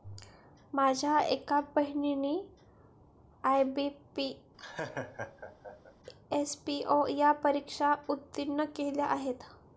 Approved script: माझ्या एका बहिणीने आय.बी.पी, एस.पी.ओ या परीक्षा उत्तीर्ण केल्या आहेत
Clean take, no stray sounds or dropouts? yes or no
no